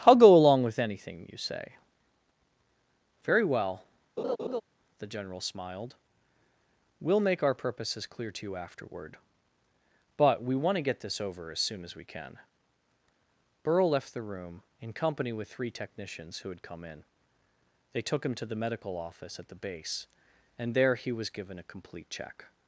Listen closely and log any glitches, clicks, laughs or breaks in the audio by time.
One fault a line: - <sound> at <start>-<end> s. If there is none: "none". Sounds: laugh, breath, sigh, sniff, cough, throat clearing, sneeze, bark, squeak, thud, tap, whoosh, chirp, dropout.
- laugh at 4.2-4.6 s